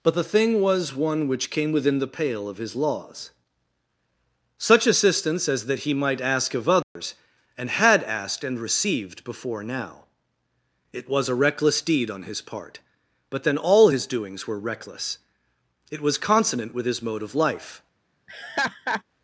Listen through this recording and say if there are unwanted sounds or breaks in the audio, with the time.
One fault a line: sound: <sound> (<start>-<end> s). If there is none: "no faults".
sound: dropout (6.8-7.0 s)
sound: laugh (18.3-19.0 s)